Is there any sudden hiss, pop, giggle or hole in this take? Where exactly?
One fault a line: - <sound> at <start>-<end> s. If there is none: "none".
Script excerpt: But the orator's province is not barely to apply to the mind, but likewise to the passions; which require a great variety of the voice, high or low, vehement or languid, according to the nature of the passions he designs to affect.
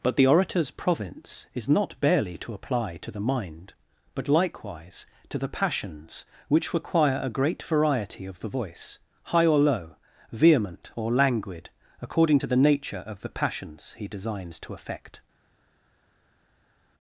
none